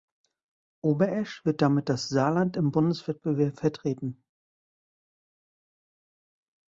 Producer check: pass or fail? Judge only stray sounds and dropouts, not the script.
pass